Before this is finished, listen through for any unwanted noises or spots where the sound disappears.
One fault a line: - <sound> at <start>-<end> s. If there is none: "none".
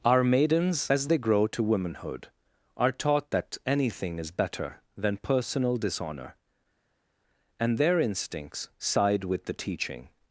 none